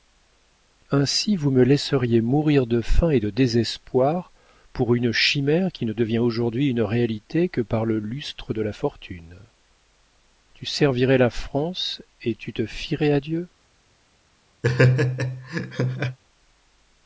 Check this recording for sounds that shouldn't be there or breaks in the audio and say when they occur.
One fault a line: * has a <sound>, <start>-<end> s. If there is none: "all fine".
* has a laugh, 14.6-16.2 s